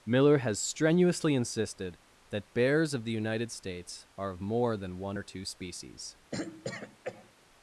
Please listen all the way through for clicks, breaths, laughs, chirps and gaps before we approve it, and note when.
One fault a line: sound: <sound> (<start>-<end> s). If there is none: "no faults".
sound: throat clearing (6.3-7.3 s)